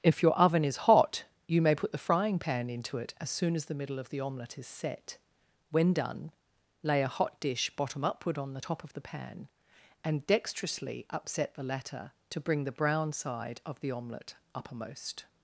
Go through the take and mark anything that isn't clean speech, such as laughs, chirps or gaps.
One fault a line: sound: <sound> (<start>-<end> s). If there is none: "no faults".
no faults